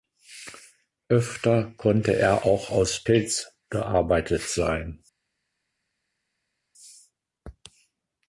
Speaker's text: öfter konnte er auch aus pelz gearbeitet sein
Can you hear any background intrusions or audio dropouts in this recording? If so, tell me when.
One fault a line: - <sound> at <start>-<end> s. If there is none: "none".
none